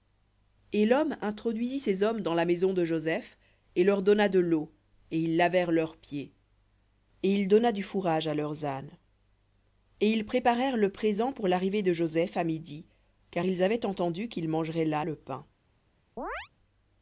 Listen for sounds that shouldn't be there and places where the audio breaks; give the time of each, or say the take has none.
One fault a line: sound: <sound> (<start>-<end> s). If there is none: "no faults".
sound: chirp (16.2-16.5 s)